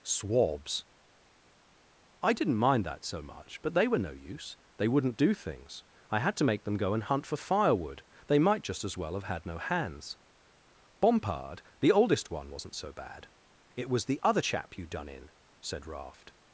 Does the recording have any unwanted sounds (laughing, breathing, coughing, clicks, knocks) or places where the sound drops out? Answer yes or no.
no